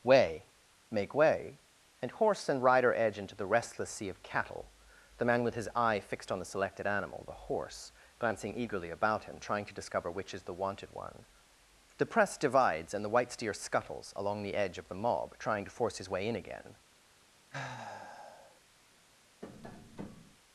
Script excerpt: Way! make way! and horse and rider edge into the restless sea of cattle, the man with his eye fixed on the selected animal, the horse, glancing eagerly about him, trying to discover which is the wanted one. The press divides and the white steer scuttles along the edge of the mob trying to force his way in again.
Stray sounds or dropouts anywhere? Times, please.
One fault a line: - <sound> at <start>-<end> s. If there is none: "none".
- sigh at 17.5-18.6 s
- tap at 19.4-20.4 s